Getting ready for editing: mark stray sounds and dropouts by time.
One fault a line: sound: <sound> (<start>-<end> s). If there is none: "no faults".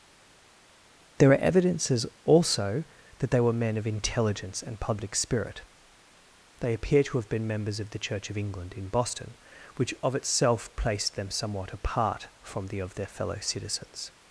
no faults